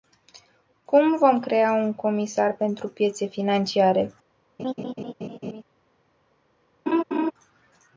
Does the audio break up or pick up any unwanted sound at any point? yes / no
yes